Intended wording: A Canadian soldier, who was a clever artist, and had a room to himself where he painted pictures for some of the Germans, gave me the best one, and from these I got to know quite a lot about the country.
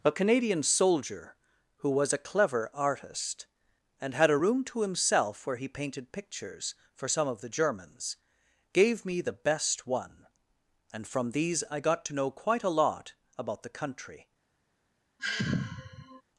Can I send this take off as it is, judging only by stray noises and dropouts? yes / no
no